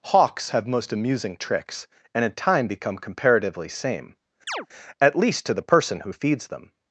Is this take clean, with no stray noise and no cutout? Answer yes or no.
no